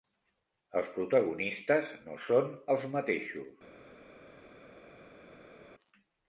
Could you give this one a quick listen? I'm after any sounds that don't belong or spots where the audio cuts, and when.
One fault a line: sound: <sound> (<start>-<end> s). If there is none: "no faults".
no faults